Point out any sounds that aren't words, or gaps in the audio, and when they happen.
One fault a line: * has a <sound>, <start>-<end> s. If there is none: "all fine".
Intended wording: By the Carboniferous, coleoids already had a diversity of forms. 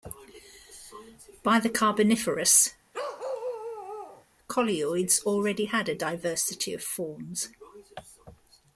* has a bark, 2.9-4.3 s